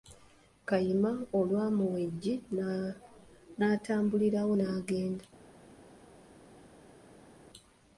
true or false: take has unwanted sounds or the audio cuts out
false